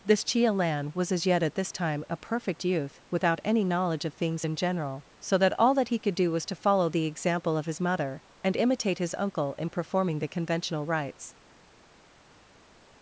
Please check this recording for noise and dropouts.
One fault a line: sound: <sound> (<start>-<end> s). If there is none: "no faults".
no faults